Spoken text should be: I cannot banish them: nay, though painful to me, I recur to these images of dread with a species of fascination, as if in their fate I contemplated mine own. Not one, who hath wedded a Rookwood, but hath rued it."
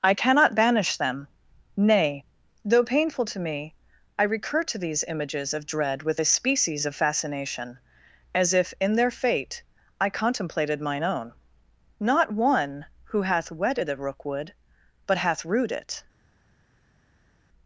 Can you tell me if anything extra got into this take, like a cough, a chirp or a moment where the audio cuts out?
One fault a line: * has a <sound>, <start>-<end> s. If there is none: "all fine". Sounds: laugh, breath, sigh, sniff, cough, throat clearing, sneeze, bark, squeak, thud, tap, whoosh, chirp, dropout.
all fine